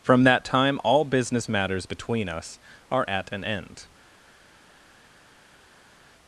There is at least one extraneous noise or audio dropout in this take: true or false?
false